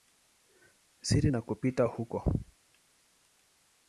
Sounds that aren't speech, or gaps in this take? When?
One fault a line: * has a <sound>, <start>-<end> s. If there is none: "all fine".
all fine